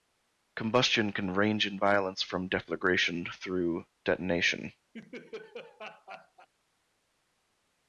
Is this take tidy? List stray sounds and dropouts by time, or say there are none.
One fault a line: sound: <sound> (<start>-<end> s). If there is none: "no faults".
sound: laugh (4.9-6.5 s)